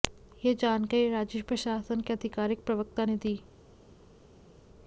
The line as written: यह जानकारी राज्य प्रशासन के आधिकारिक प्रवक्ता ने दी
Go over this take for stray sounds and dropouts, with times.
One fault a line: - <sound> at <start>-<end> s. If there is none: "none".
none